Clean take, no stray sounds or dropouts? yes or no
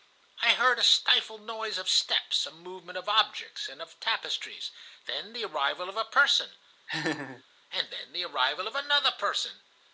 no